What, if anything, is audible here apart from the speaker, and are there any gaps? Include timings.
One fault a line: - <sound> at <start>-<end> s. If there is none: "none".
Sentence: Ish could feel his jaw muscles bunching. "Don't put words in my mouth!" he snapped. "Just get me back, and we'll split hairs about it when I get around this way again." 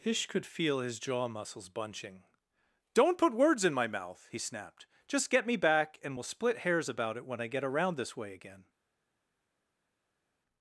none